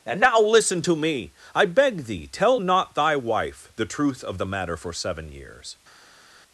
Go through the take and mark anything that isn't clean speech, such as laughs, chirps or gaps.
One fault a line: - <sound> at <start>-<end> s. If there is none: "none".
none